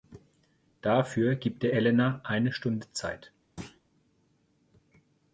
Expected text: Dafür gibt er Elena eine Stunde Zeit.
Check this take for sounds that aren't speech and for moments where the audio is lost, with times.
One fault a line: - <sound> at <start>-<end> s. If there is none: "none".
- thud at 3.6-3.8 s